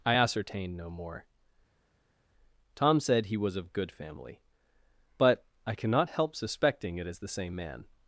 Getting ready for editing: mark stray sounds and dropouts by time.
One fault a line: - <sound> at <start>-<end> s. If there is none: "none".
none